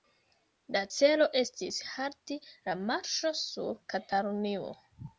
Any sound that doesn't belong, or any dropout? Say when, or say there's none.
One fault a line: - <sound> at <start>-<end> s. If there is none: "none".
none